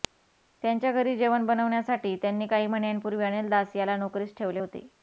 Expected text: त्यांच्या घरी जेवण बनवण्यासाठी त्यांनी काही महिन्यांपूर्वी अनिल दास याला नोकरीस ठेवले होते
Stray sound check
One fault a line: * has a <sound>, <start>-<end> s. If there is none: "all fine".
all fine